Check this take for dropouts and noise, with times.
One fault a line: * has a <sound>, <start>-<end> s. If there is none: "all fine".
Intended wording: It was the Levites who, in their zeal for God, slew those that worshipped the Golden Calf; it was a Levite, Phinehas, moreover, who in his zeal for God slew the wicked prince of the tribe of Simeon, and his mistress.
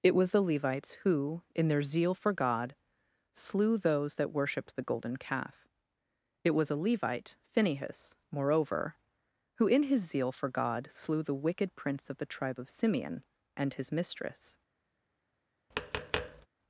* has a tap, 15.7-16.5 s